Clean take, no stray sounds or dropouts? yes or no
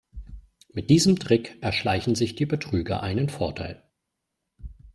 yes